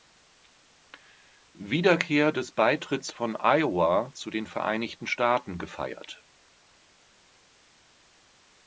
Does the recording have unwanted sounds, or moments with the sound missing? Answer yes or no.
no